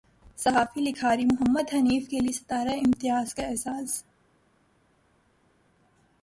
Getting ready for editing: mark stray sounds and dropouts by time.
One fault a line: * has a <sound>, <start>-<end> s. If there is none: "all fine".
all fine